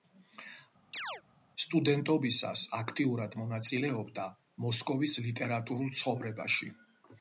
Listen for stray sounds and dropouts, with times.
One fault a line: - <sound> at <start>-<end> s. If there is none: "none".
- chirp at 0.9-1.2 s